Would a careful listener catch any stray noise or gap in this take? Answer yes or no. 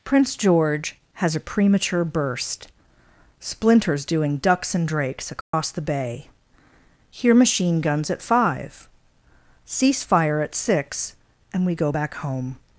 yes